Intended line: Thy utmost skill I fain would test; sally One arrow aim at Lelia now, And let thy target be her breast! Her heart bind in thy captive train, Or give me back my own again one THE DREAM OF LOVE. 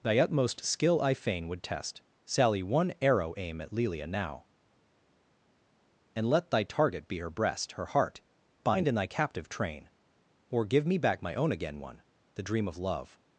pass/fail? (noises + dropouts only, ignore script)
pass